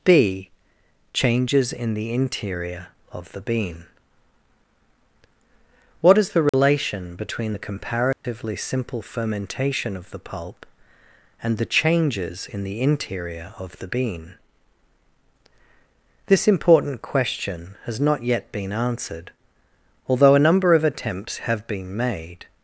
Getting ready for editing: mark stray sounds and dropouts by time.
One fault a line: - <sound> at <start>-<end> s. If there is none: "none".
- dropout at 6.5-6.5 s
- dropout at 8.1-8.2 s